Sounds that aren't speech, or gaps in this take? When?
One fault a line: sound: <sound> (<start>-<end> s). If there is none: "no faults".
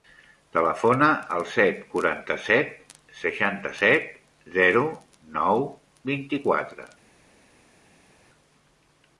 no faults